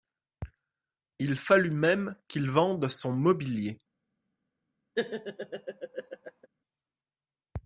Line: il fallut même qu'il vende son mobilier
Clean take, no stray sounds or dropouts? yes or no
no